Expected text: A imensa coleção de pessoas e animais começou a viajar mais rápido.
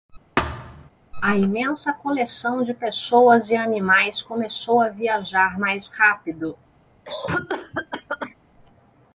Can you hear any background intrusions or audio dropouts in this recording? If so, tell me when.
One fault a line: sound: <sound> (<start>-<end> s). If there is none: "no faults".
sound: thud (0.4-0.9 s)
sound: cough (7.0-8.3 s)